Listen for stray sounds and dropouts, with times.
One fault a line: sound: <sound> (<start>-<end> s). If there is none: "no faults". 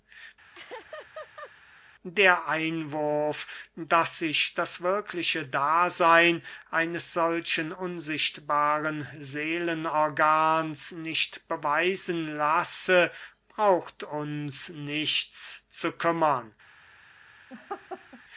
sound: laugh (0.5-1.5 s)
sound: laugh (17.5-18.2 s)